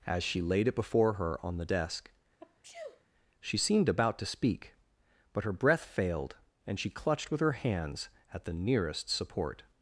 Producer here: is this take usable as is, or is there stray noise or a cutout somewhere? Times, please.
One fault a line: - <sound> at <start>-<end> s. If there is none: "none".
- sneeze at 2.4-3.0 s